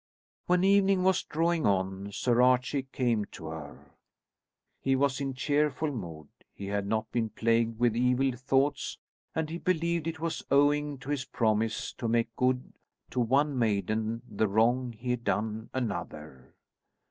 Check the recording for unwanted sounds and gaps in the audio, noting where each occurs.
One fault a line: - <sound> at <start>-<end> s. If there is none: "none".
none